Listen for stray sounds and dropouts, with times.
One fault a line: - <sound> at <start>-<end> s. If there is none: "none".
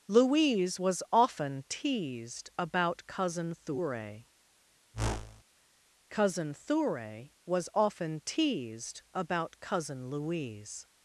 - whoosh at 4.9-5.4 s